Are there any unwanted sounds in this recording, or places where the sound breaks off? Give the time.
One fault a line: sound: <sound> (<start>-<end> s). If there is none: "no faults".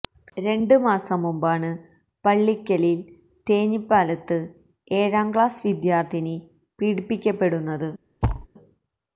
sound: thud (8.2-8.5 s)